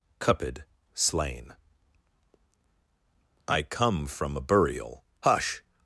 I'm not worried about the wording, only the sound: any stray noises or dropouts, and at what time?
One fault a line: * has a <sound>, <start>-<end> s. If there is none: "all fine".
all fine